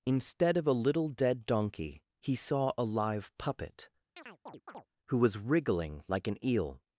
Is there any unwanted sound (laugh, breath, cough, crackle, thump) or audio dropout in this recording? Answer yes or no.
yes